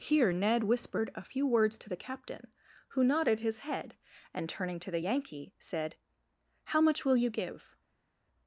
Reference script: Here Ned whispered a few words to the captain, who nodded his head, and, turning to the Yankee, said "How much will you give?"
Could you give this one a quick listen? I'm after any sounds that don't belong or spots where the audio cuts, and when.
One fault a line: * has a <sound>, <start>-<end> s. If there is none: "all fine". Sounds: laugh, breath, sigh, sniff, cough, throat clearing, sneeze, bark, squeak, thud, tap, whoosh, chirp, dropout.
all fine